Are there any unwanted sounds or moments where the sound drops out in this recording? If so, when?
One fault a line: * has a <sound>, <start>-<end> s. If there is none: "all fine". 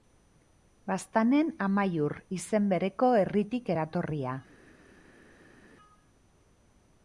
all fine